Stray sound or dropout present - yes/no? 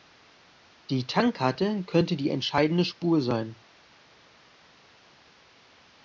no